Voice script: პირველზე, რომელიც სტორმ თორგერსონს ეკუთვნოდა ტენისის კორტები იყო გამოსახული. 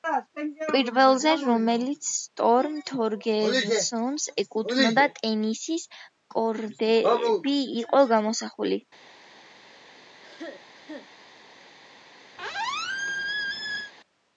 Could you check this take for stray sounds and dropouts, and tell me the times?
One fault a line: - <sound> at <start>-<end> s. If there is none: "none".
- cough at 10.2-11.1 s
- squeak at 12.4-13.9 s